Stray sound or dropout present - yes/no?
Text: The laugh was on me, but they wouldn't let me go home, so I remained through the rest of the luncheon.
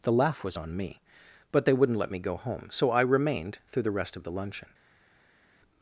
no